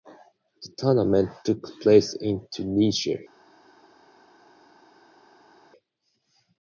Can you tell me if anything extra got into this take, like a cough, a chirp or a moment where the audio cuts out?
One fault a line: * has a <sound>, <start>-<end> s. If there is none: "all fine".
all fine